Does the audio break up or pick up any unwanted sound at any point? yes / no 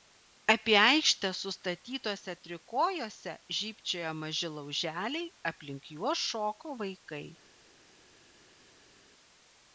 no